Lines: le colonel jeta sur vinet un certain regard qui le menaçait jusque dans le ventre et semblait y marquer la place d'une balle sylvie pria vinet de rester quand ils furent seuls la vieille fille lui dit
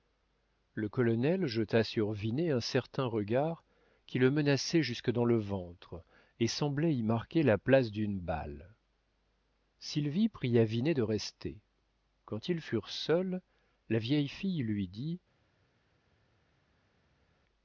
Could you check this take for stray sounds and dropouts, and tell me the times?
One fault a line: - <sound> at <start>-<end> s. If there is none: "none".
none